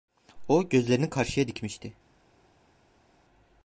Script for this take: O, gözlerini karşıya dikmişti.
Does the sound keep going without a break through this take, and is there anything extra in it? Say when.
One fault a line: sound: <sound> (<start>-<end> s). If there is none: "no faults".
no faults